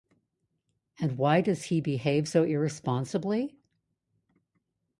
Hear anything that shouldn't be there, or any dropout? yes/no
no